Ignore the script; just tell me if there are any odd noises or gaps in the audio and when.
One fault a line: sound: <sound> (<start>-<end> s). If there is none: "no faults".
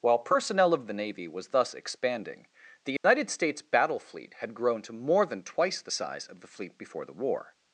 sound: dropout (3.0-3.0 s)